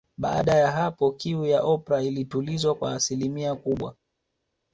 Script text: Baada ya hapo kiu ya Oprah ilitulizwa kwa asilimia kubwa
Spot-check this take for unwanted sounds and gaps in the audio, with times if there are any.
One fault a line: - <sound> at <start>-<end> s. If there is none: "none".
none